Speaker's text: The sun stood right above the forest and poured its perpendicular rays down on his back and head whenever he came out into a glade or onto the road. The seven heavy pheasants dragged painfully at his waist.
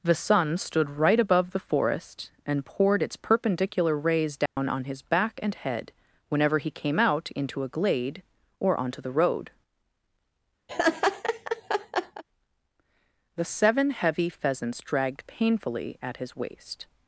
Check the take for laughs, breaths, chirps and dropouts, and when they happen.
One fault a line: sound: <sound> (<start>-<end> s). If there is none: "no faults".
sound: dropout (4.5-4.6 s)
sound: laugh (10.7-12.2 s)